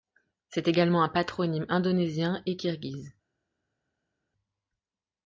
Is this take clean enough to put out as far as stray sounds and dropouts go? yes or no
yes